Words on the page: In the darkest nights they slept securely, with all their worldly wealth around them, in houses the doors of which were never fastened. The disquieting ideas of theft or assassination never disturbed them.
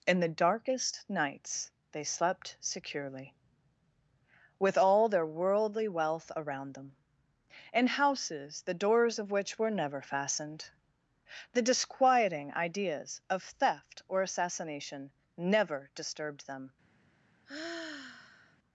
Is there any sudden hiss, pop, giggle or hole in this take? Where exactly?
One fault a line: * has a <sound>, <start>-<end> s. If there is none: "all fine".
* has a sigh, 17.5-18.6 s